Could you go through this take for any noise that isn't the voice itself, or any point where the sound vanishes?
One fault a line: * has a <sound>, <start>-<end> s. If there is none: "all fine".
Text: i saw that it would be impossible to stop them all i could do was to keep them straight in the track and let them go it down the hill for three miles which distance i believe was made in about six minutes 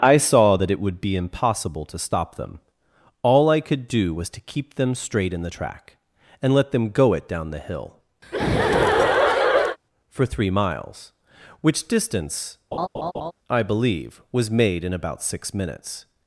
* has a laugh, 8.2-9.8 s
* has a laugh, 12.7-13.3 s